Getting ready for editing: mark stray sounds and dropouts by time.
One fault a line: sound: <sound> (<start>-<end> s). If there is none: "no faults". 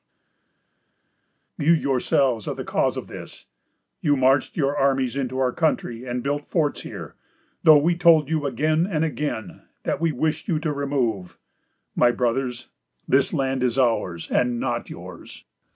no faults